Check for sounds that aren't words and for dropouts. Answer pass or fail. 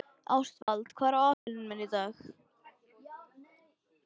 fail